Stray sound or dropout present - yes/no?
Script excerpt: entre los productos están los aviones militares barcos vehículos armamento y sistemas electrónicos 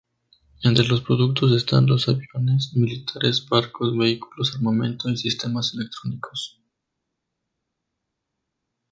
no